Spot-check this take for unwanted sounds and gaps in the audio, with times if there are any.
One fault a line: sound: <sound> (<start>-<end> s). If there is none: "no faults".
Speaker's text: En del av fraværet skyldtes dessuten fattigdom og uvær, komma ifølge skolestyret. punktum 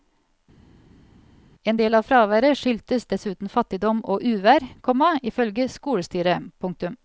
no faults